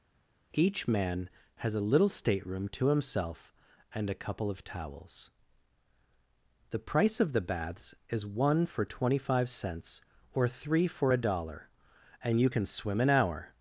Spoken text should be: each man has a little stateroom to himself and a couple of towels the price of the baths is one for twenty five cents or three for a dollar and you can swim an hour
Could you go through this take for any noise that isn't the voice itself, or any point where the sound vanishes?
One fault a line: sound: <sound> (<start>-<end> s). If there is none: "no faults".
no faults